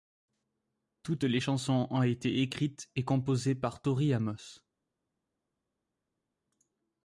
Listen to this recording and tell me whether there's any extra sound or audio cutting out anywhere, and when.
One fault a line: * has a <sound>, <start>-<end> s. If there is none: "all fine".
all fine